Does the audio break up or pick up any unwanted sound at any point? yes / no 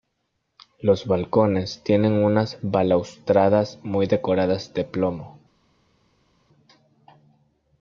no